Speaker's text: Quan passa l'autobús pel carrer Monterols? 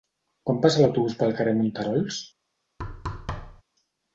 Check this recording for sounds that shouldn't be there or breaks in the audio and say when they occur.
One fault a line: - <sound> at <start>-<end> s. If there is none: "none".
- thud at 2.8-3.6 s